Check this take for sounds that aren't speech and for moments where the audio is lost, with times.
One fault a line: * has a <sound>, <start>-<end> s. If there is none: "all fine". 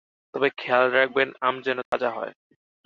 * has a dropout, 1.9-1.9 s